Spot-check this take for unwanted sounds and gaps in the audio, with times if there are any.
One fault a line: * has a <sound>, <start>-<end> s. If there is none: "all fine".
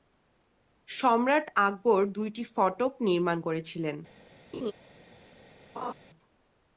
* has a laugh, 4.5-4.7 s
* has a laugh, 5.7-5.9 s